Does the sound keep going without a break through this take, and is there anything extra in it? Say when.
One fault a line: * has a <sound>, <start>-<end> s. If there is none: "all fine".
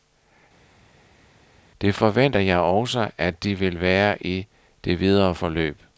all fine